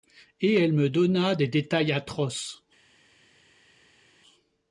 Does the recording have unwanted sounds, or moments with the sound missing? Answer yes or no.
no